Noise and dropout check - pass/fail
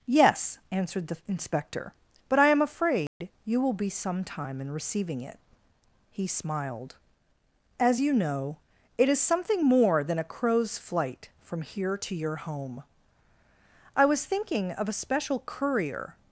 fail